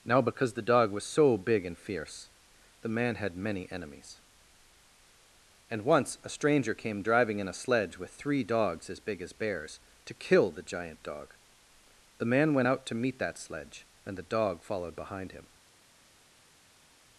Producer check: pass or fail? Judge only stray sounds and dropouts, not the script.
pass